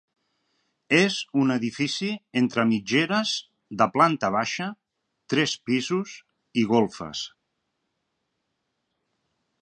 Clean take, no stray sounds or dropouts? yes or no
yes